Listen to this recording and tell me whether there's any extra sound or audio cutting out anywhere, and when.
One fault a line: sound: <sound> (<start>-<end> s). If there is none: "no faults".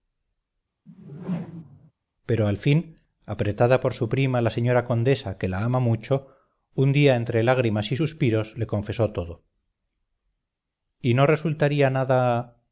sound: whoosh (0.9-1.9 s)